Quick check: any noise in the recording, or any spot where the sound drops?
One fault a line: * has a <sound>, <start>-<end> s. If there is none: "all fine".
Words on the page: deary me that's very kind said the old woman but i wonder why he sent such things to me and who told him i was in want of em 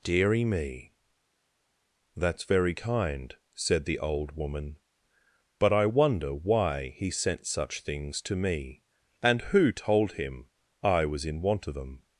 all fine